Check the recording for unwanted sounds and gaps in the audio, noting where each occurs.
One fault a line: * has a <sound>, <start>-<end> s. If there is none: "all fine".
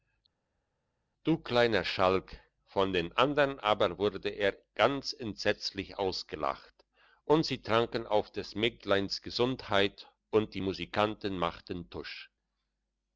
all fine